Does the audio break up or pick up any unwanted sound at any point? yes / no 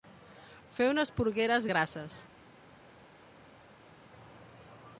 no